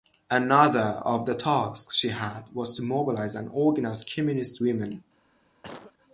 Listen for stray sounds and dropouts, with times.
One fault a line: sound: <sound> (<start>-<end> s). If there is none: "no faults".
sound: cough (5.6-5.9 s)